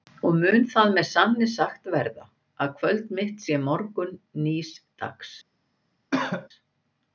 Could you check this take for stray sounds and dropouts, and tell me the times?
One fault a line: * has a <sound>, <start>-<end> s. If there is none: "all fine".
* has a cough, 6.1-6.5 s